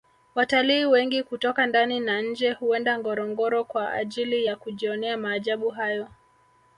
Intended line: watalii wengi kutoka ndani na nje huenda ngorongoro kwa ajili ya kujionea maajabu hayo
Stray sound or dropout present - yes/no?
no